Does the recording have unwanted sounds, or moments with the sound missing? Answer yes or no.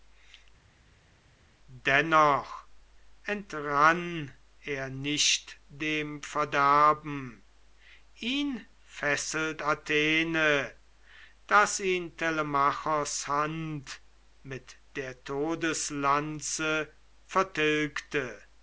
no